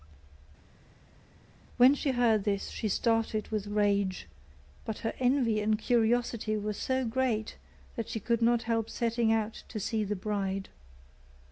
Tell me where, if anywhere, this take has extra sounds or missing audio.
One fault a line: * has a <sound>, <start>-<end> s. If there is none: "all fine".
all fine